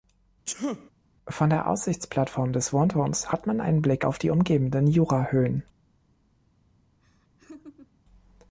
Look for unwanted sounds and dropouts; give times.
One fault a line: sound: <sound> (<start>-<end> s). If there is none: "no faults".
sound: sneeze (0.5-0.9 s)
sound: laugh (7.0-8.0 s)